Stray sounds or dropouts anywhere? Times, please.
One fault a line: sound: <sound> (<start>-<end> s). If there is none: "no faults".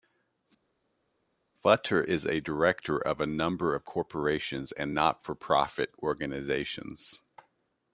no faults